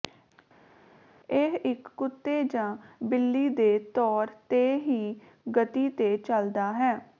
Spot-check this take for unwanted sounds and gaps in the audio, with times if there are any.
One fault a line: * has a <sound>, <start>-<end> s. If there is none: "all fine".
all fine